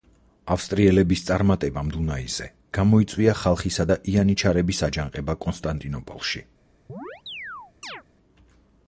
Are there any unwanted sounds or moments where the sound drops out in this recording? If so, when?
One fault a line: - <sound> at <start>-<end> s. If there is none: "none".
- chirp at 6.9-8.0 s